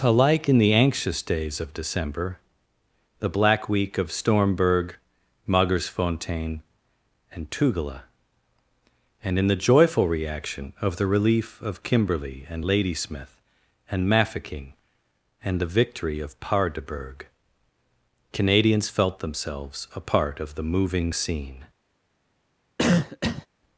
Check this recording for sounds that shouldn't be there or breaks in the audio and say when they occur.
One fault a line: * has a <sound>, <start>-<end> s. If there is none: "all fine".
* has a cough, 22.8-23.5 s